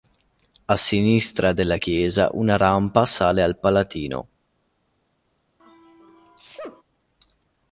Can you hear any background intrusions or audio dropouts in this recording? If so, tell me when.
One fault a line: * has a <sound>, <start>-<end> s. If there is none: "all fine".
* has a sneeze, 5.6-6.8 s